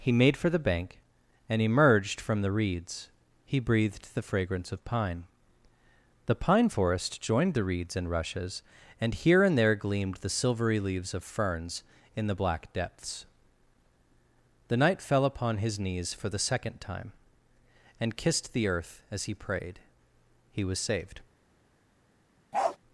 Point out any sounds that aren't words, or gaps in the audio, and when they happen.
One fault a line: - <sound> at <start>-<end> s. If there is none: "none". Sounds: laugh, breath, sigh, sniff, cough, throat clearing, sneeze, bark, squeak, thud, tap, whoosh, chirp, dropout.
- bark at 22.5-22.8 s